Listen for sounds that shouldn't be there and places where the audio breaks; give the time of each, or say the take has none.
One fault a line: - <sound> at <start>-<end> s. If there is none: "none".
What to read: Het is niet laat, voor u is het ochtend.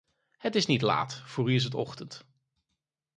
none